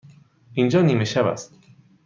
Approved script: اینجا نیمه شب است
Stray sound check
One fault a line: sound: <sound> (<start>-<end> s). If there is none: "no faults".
no faults